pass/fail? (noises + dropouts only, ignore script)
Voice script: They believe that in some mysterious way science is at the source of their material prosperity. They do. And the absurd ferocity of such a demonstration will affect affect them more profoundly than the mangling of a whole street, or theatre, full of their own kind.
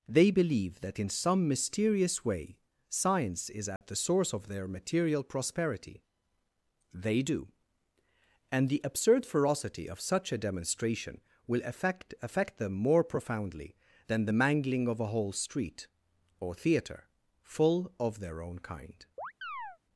fail